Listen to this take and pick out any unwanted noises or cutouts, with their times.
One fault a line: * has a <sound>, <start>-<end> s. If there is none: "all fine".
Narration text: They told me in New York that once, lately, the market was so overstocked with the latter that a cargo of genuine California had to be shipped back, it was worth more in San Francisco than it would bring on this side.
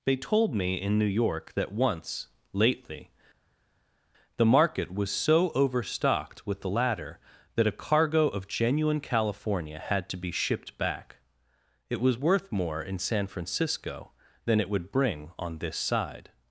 all fine